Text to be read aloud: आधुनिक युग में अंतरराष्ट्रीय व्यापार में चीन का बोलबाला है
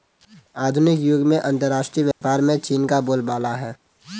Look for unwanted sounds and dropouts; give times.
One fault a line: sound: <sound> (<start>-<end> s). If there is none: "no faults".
sound: dropout (2.1-2.2 s)